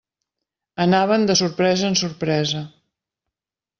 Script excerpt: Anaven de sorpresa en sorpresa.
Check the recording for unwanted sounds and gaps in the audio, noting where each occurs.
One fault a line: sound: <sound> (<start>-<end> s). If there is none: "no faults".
no faults